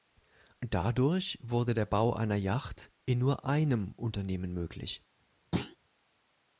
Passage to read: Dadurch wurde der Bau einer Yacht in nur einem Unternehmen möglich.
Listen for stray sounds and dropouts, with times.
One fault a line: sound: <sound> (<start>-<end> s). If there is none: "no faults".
sound: thud (5.5-5.8 s)